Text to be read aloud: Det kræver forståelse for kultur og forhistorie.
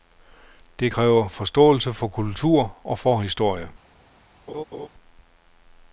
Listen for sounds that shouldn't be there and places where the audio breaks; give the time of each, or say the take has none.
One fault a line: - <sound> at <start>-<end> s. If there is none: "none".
- laugh at 4.5-4.9 s